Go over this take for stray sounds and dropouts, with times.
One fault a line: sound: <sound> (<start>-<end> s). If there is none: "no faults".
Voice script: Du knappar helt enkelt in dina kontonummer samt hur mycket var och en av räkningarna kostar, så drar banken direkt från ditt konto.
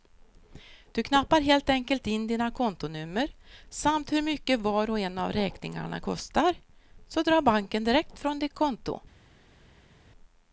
no faults